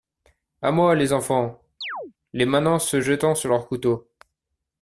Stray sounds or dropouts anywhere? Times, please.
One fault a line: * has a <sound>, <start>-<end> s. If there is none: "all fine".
* has a chirp, 1.8-2.1 s